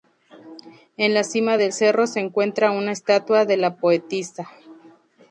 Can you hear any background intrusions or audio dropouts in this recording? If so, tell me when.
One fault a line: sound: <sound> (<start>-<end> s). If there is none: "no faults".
no faults